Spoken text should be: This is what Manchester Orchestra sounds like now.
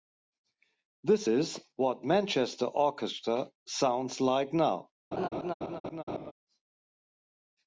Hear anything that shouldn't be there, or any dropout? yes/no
yes